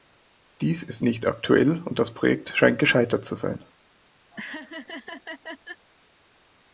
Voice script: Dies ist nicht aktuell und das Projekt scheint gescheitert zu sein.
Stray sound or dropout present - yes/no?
yes